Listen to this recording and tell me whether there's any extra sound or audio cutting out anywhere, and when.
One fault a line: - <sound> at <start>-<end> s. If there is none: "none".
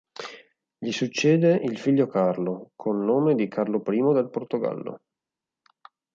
none